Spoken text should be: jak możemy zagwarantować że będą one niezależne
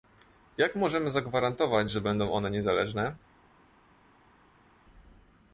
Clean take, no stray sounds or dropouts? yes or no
yes